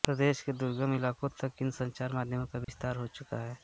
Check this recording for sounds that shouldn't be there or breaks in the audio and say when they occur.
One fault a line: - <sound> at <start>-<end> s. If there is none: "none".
- dropout at 2.6-2.7 s